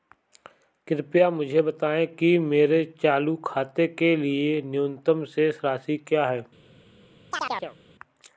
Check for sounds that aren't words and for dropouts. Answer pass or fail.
fail